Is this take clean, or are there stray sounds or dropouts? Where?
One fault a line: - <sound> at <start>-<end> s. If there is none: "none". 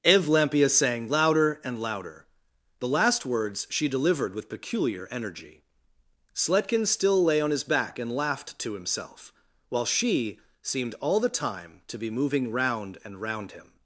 none